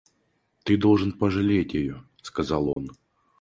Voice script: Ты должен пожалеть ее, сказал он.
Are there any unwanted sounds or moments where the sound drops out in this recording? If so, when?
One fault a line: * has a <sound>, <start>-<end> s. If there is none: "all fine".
* has a dropout, 2.7-2.8 s